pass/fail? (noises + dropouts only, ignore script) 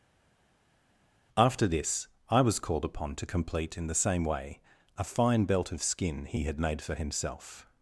pass